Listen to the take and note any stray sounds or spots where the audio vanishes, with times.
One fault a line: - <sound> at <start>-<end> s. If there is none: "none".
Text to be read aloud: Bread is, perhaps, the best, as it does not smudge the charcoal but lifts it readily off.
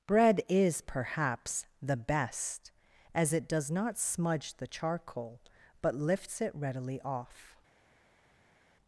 none